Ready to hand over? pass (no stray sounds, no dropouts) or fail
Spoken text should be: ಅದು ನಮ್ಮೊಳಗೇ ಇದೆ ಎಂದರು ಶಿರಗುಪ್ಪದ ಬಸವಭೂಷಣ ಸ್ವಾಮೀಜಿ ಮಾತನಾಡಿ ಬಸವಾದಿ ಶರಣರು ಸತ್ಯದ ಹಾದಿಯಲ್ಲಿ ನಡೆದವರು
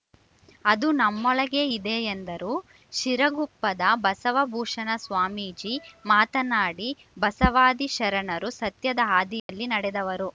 fail